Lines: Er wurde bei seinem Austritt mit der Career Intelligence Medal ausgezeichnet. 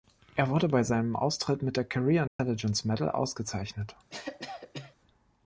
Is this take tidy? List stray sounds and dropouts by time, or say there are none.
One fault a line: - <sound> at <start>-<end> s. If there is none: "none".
- dropout at 2.3-2.4 s
- cough at 4.1-5.0 s